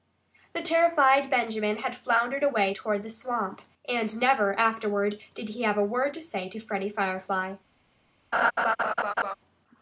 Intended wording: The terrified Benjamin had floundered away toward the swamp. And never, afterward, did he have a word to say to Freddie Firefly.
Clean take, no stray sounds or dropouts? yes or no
no